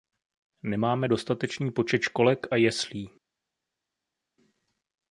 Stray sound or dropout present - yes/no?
no